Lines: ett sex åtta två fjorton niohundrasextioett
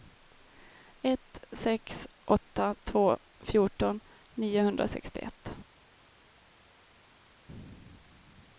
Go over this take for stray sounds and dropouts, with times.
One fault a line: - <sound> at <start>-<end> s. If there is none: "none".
none